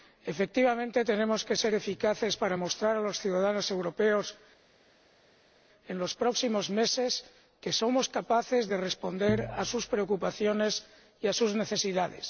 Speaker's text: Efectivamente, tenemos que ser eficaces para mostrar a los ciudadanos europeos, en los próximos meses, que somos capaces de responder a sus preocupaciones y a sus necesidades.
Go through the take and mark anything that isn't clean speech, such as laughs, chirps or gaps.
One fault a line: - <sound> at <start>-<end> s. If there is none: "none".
none